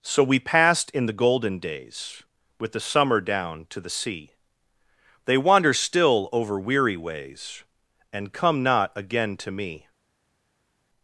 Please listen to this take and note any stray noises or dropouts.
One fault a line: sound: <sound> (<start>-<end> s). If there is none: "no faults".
no faults